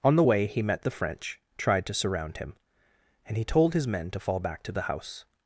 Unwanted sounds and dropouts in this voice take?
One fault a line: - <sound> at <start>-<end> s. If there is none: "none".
none